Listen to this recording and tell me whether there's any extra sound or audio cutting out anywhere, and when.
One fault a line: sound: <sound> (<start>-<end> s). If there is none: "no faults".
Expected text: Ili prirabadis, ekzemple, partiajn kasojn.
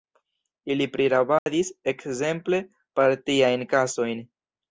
sound: dropout (1.4-1.5 s)